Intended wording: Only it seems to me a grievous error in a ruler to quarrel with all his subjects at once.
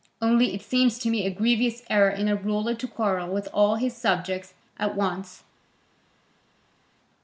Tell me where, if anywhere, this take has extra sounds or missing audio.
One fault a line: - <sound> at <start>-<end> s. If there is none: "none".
none